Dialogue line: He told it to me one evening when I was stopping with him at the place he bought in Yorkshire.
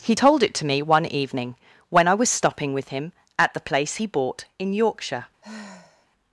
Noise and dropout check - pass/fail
fail